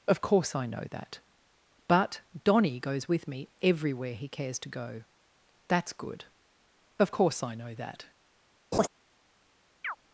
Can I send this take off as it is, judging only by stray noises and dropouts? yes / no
no